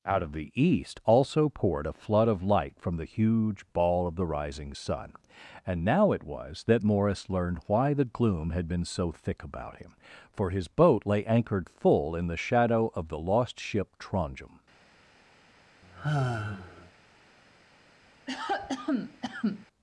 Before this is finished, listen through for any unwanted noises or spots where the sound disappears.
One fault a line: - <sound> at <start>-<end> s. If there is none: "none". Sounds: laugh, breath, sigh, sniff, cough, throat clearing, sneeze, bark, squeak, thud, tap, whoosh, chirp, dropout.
- sigh at 15.8-16.9 s
- cough at 18.3-19.7 s